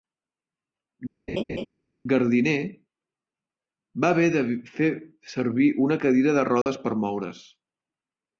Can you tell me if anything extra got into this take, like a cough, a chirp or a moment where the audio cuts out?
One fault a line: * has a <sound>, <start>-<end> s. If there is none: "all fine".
* has a laugh, 1.3-1.7 s
* has a dropout, 6.6-6.7 s